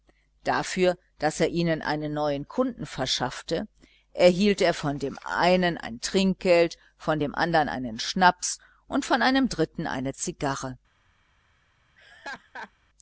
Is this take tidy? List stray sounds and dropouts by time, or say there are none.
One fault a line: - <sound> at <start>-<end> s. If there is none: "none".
- laugh at 12.0-12.7 s